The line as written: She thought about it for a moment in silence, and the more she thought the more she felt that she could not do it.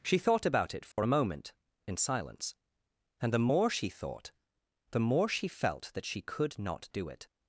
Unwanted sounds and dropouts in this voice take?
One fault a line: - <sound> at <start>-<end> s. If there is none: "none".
- dropout at 0.9-1.0 s